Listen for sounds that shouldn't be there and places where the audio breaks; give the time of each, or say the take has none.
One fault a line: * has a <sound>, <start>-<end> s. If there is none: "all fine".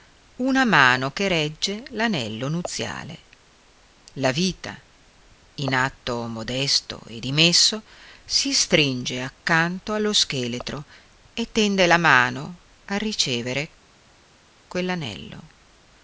all fine